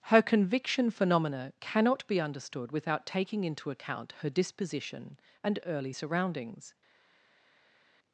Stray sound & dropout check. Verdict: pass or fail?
pass